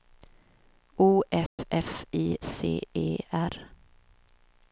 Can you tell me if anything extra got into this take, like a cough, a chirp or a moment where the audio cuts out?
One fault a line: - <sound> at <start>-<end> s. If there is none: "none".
- dropout at 1.5-1.6 s